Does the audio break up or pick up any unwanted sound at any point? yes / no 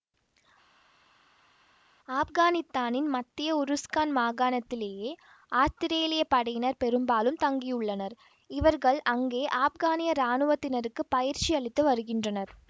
no